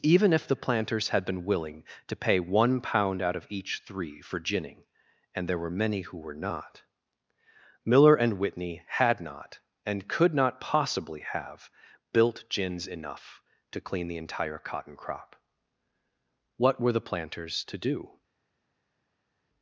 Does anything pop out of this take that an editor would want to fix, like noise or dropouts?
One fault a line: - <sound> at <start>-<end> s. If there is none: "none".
none